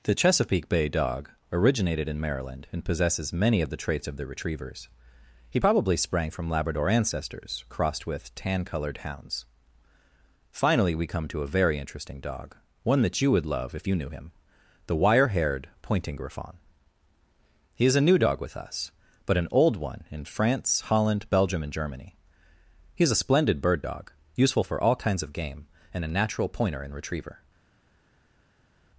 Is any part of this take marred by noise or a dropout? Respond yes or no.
no